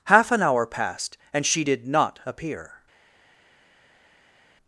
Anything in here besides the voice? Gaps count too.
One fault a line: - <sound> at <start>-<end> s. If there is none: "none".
none